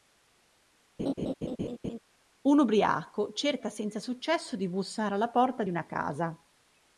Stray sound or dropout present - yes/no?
yes